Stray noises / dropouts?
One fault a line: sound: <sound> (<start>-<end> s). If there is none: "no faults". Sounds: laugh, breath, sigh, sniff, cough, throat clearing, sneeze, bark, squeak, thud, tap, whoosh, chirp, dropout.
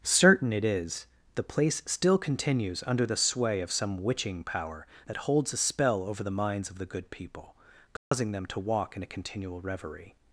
sound: dropout (8.0-8.1 s)